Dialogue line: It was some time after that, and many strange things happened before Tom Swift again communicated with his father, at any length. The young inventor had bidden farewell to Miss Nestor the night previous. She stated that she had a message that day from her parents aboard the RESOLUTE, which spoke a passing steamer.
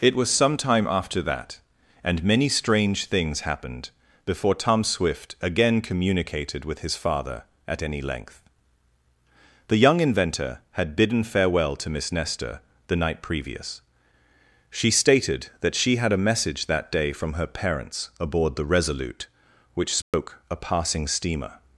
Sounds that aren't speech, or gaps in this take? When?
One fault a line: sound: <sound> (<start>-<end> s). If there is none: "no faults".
sound: dropout (20.0-20.1 s)